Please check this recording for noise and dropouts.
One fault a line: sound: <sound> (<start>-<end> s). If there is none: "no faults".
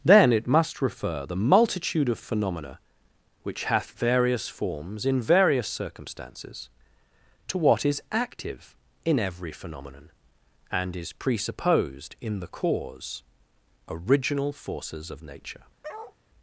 sound: bark (15.8-16.2 s)